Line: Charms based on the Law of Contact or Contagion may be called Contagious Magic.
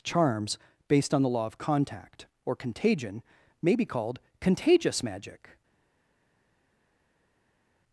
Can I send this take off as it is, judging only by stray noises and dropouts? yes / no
yes